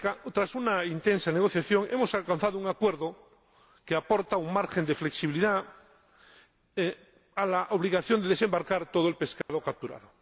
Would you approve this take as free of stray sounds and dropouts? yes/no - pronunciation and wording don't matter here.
no